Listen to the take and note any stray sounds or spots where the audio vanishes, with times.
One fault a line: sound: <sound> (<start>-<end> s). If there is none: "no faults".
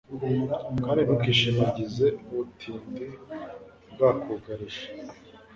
no faults